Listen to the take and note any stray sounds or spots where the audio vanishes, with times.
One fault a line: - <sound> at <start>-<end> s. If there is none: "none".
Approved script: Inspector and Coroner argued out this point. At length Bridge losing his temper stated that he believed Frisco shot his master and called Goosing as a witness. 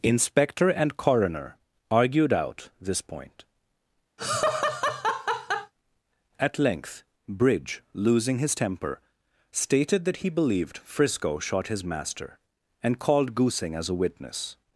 - laugh at 4.2-5.7 s